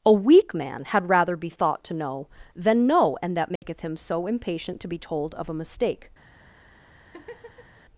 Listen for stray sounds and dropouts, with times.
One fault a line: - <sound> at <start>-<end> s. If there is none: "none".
- dropout at 3.6-3.6 s
- laugh at 7.0-7.8 s